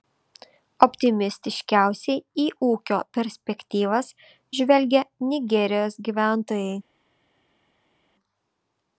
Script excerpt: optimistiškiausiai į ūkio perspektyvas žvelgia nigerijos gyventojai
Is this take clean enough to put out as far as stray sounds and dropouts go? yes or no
yes